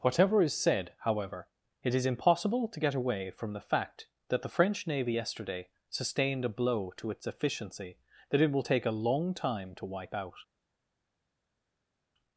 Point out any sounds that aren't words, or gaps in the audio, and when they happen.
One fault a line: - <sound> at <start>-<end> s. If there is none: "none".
none